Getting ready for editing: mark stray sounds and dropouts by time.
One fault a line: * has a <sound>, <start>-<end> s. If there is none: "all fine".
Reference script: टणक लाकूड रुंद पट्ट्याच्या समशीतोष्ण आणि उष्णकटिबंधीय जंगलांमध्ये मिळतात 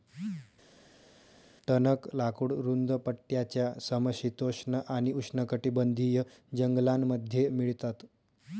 all fine